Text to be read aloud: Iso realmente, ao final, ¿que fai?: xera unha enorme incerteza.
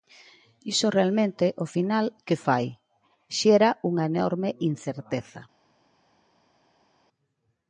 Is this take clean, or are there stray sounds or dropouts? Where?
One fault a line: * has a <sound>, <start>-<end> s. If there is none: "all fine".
all fine